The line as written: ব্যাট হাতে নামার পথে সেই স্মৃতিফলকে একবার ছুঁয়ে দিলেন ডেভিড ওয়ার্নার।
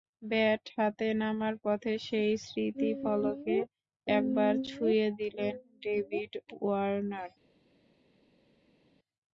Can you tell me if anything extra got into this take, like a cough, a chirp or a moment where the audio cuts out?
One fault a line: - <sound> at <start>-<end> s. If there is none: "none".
none